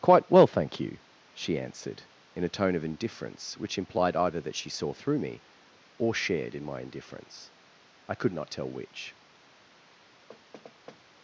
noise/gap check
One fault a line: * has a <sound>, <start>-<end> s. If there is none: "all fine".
* has a thud, 10.3-11.0 s